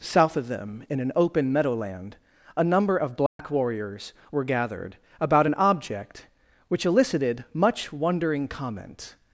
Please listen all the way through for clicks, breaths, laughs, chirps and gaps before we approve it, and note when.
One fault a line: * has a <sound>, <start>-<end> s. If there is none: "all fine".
* has a dropout, 3.3-3.4 s